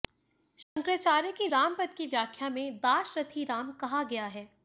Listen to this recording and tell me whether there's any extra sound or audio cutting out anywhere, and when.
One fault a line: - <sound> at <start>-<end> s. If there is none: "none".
- dropout at 0.6-0.8 s